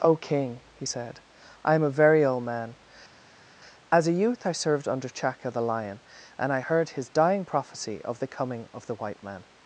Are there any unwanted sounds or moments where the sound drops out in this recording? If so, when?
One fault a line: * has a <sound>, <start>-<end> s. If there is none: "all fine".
all fine